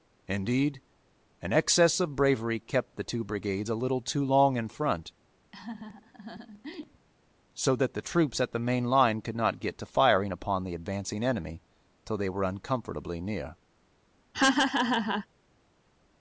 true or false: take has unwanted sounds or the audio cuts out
true